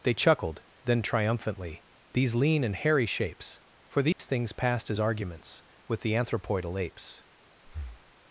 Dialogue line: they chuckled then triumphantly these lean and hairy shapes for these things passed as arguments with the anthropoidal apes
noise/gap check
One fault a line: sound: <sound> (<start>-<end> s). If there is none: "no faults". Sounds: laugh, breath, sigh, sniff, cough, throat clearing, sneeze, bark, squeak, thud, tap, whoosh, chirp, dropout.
sound: dropout (4.1-4.2 s)
sound: breath (7.6-8.1 s)